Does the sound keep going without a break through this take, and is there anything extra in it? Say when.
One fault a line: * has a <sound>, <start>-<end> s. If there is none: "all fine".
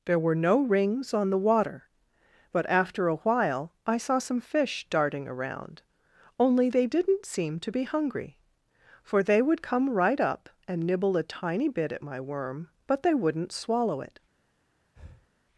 * has a breath, 15.0-15.3 s